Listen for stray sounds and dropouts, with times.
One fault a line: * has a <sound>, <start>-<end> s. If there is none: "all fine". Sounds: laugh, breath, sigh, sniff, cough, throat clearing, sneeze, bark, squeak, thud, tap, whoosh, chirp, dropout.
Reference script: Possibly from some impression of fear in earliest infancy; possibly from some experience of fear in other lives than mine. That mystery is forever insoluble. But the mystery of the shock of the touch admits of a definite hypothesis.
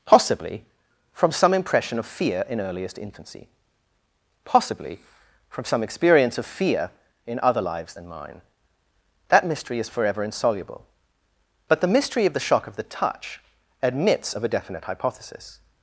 all fine